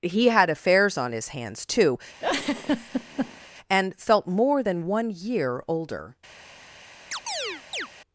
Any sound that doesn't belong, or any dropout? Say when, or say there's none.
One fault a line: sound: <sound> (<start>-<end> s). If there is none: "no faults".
sound: laugh (2.2-3.5 s)
sound: chirp (7.1-7.9 s)